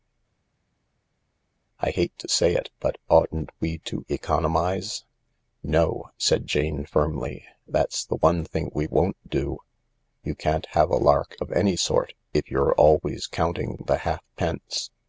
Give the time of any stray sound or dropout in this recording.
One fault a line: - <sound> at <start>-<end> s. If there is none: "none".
none